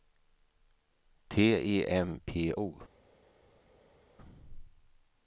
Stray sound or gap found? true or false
false